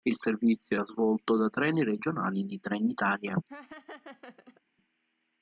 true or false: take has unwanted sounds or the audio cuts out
true